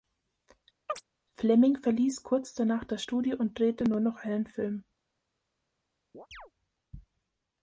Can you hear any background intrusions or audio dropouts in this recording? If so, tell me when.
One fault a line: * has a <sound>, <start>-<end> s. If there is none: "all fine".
* has a chirp, 0.9-1.0 s
* has a chirp, 6.1-6.5 s